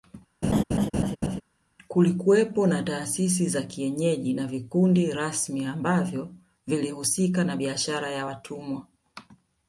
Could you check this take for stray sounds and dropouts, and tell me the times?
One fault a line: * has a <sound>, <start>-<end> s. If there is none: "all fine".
* has a laugh, 0.4-1.4 s